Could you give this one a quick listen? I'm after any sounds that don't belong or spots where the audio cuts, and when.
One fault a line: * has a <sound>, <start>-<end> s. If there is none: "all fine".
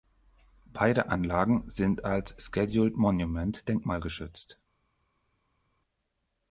all fine